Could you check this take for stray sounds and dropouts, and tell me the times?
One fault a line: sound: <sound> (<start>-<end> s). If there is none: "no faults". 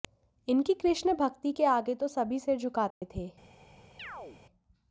sound: dropout (2.9-3.0 s)
sound: chirp (4.0-4.4 s)